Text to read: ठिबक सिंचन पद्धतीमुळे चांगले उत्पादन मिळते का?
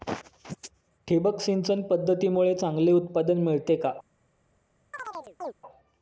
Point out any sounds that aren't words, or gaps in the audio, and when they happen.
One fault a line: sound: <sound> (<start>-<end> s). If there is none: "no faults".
sound: chirp (4.9-5.5 s)